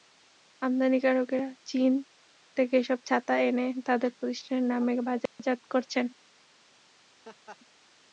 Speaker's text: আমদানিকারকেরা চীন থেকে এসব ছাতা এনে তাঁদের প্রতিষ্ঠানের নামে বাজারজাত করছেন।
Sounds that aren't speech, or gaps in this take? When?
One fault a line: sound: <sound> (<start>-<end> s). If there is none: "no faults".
sound: dropout (5.3-5.4 s)
sound: laugh (7.2-7.6 s)